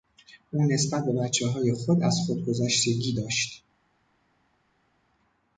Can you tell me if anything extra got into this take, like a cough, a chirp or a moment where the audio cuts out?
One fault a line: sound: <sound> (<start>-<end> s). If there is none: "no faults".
no faults